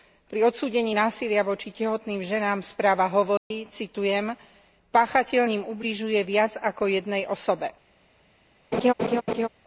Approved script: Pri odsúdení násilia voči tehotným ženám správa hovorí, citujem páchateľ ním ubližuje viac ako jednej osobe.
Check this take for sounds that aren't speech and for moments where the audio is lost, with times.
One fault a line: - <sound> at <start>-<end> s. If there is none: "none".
- dropout at 3.4-3.5 s
- laugh at 8.7-9.5 s